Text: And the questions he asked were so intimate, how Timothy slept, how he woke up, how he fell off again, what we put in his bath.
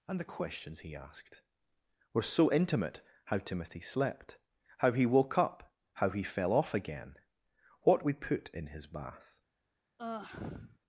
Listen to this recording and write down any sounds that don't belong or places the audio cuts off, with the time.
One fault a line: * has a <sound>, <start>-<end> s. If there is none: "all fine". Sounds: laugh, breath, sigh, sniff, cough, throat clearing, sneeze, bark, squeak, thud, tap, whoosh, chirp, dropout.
* has a sigh, 10.0-10.8 s